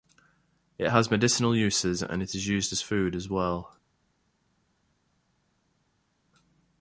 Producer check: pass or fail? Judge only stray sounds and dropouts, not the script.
pass